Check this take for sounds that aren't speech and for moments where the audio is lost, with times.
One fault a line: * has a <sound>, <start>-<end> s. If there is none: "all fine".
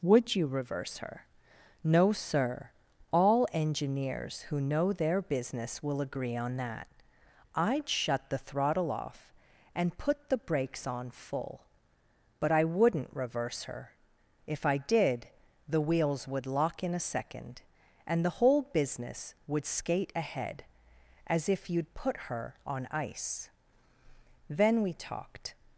all fine